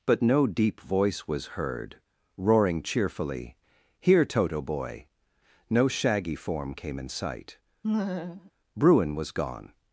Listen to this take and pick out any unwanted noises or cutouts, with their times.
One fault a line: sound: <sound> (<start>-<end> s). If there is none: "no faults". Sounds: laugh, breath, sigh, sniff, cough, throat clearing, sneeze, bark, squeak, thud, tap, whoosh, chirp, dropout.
sound: laugh (7.8-8.5 s)